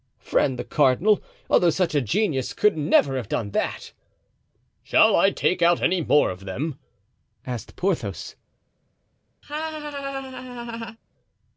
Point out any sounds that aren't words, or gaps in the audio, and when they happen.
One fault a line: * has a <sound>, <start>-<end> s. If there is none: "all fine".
* has a laugh, 9.4-11.0 s